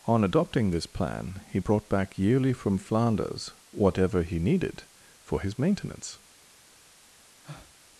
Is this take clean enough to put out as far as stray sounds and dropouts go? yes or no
no